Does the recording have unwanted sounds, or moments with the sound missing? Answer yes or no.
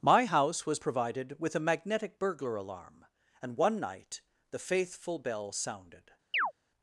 yes